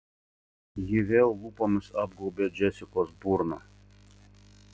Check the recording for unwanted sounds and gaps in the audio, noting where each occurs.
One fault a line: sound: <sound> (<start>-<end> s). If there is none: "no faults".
no faults